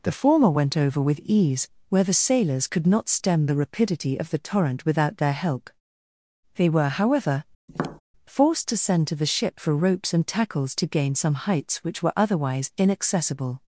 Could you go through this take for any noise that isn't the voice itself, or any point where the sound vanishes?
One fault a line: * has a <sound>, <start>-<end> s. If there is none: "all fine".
* has a tap, 7.7-8.0 s